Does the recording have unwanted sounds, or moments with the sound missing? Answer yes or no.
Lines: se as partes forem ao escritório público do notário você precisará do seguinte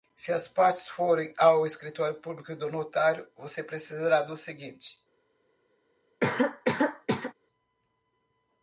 yes